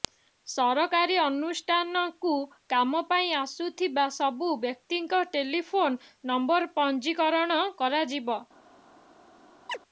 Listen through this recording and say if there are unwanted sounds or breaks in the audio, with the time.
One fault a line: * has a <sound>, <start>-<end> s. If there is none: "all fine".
* has a chirp, 9.7-9.8 s